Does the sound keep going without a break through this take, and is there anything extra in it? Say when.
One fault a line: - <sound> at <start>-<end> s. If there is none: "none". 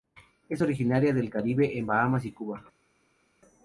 none